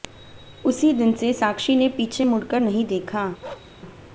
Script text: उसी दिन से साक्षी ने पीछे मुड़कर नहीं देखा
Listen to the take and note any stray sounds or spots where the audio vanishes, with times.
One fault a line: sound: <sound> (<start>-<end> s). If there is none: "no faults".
sound: bark (3.4-3.7 s)